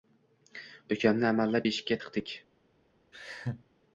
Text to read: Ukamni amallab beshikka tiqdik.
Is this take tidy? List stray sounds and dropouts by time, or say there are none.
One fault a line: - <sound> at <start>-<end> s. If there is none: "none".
- laugh at 3.1-3.6 s